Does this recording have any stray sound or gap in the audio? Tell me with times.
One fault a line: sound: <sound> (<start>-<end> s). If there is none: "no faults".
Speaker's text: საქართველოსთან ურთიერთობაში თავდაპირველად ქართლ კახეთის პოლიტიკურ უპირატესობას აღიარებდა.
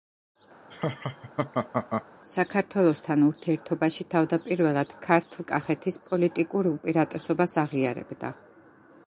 sound: laugh (0.7-2.1 s)